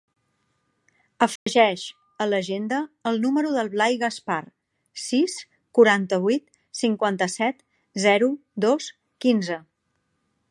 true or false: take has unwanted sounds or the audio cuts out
true